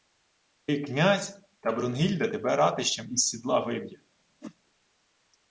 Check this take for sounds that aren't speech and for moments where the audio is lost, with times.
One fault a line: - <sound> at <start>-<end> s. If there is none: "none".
- whoosh at 4.4-4.6 s